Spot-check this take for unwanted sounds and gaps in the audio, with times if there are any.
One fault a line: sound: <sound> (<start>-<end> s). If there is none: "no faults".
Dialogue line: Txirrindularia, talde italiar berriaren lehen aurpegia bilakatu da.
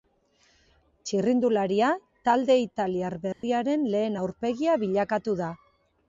sound: dropout (3.3-3.4 s)